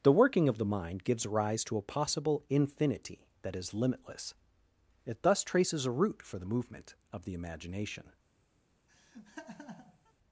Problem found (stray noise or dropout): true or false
true